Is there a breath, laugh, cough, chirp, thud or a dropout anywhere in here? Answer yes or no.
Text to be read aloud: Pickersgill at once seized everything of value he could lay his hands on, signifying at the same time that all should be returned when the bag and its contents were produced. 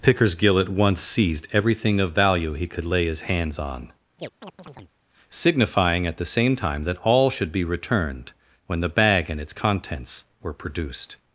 yes